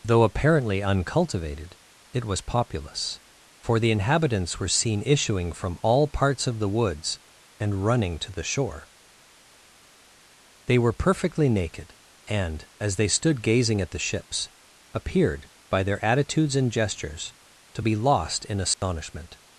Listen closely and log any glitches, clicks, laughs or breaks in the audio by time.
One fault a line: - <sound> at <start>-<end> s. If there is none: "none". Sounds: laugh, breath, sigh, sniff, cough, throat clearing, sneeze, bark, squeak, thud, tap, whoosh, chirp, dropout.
- dropout at 18.7-18.8 s